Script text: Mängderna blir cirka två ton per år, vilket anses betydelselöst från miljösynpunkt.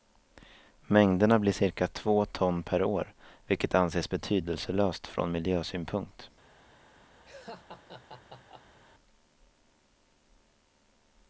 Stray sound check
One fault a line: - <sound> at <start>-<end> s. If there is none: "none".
- laugh at 7.3-8.8 s